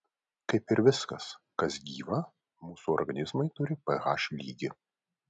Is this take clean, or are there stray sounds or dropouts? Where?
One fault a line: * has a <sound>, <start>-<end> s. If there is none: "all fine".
all fine